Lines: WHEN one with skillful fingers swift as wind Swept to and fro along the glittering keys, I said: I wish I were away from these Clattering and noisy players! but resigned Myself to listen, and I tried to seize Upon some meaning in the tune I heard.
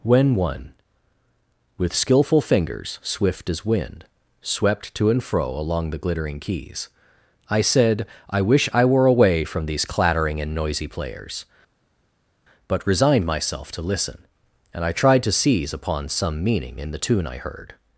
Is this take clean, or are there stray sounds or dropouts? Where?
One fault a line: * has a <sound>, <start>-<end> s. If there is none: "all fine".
all fine